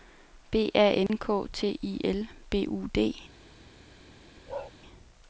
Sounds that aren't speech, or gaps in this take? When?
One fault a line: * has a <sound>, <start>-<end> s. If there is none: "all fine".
* has a dropout, 1.1-1.1 s
* has a bark, 4.5-4.7 s